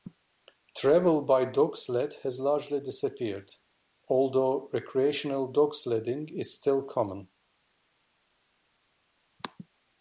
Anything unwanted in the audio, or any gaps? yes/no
no